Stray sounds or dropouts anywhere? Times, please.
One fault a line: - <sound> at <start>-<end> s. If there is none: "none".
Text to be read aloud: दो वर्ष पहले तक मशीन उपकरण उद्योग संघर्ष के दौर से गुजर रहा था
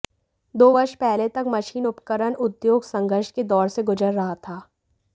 none